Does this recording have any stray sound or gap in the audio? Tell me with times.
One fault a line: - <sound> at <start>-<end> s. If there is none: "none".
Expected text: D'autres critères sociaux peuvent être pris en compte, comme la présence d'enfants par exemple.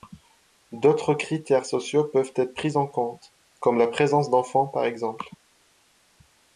none